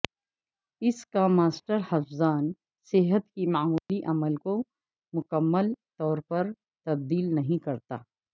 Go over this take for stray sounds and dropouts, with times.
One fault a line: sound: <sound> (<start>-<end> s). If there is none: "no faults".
sound: dropout (3.8-3.9 s)